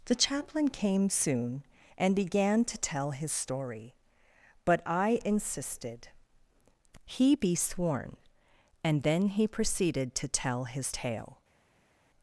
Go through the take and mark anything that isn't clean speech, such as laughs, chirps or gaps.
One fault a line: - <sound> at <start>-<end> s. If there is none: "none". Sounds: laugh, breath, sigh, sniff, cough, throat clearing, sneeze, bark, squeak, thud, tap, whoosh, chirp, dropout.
none